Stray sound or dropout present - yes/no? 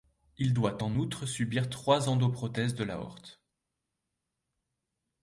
no